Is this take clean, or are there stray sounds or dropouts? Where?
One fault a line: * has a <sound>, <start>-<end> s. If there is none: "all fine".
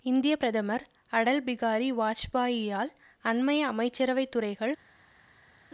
all fine